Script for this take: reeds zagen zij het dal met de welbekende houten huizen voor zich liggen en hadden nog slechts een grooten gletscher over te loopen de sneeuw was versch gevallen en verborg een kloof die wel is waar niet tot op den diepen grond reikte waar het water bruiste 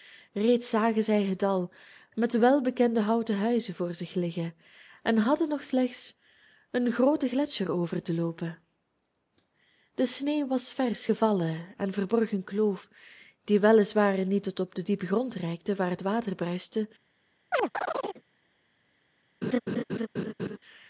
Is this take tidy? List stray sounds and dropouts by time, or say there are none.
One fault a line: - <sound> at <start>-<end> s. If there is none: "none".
- chirp at 17.5-18.2 s
- laugh at 19.4-20.6 s